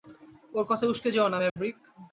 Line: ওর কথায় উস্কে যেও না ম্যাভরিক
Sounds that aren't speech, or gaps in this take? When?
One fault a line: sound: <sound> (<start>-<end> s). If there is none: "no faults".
sound: dropout (1.5-1.6 s)